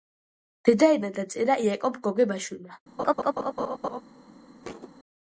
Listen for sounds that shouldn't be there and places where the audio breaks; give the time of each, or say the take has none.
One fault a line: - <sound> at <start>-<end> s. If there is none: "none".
- laugh at 3.0-4.0 s
- thud at 4.6-4.9 s